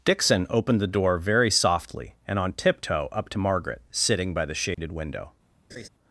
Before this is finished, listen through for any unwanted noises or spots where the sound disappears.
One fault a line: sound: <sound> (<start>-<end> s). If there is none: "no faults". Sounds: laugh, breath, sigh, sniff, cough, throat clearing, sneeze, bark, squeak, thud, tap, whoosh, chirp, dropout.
sound: dropout (4.7-4.8 s)
sound: laugh (5.7-5.9 s)